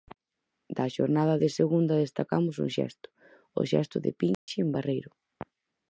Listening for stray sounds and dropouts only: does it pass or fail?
fail